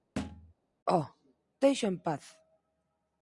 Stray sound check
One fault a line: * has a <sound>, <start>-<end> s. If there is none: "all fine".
* has a thud, 0.2-0.5 s